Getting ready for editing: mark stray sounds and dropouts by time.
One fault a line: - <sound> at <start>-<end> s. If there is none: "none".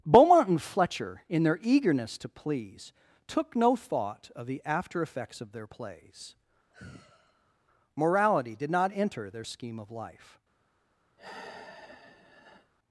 - sigh at 6.7-7.5 s
- sigh at 11.2-12.7 s